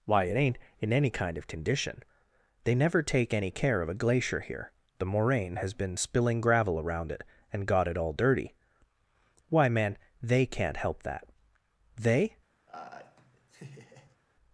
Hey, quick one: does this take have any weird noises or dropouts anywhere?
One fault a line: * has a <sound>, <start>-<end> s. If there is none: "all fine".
* has a laugh, 12.7-14.2 s